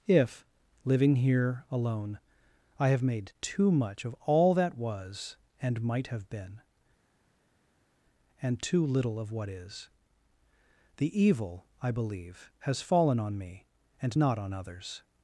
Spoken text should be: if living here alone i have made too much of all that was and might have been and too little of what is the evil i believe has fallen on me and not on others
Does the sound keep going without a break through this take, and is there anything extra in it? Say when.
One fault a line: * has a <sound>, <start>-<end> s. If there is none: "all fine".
all fine